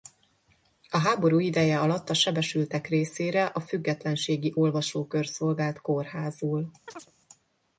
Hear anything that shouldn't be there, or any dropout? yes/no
yes